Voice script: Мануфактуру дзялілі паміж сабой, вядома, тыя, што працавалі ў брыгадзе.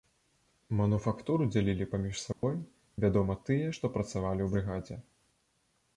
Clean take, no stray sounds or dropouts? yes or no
no